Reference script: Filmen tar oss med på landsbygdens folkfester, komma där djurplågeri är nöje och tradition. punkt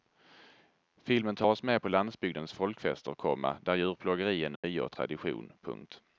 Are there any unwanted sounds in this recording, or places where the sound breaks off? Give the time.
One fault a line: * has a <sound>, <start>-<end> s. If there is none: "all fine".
* has a dropout, 4.6-4.6 s